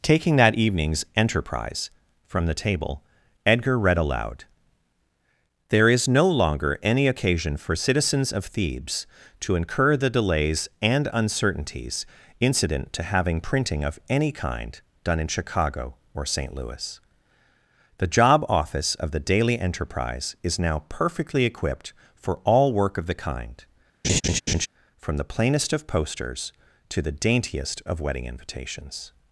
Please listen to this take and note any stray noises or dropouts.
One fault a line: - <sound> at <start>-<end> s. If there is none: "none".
- laugh at 24.0-24.7 s